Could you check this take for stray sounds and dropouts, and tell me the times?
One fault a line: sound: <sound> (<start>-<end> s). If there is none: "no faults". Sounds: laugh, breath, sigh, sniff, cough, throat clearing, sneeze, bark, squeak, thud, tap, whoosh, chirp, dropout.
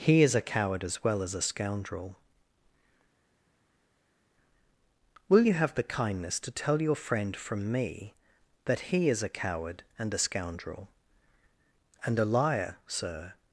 no faults